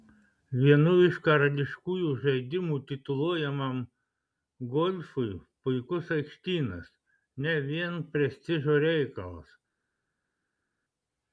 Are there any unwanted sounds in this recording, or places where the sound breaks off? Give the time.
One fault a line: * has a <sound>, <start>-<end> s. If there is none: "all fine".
all fine